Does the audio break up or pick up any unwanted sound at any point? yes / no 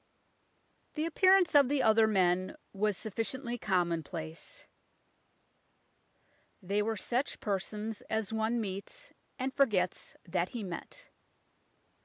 no